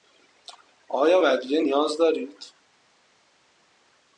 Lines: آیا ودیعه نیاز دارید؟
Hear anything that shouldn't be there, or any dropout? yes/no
no